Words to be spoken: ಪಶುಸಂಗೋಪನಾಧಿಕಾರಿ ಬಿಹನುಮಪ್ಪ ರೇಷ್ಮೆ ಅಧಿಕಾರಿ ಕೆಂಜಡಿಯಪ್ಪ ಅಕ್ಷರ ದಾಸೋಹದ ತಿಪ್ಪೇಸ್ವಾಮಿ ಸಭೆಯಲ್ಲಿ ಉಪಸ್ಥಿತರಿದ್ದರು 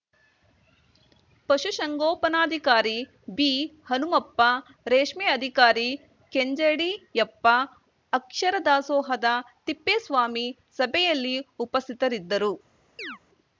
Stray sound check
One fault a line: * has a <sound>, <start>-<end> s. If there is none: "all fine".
* has a chirp, 13.0-13.2 s